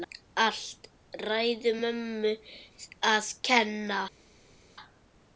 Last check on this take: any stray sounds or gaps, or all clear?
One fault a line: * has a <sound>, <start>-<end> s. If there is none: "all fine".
all fine